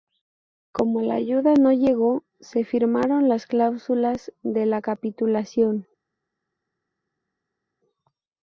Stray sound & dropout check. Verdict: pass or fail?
pass